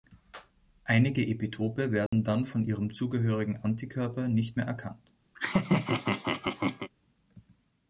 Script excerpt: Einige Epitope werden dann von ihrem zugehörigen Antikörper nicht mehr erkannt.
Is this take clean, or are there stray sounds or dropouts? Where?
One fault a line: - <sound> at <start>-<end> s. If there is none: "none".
- dropout at 2.1-2.1 s
- laugh at 5.3-6.9 s